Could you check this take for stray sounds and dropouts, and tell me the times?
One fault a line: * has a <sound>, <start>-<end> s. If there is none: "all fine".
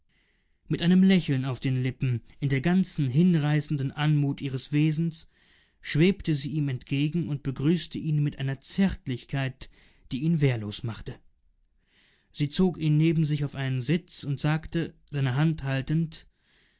all fine